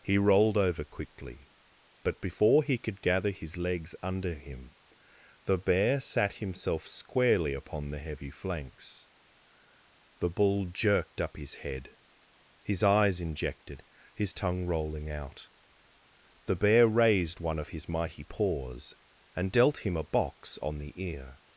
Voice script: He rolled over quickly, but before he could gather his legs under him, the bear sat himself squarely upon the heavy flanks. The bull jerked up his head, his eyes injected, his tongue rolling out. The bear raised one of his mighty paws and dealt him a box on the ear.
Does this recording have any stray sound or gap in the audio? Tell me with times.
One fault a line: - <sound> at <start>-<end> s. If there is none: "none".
none